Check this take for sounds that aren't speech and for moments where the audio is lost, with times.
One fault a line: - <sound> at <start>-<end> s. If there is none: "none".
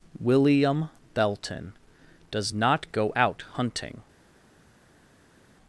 none